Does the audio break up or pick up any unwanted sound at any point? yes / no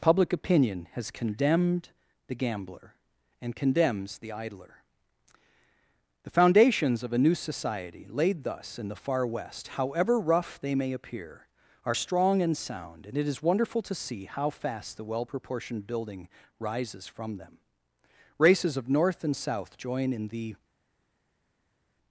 no